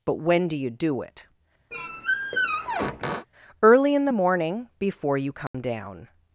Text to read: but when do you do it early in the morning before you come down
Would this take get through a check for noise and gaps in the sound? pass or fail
fail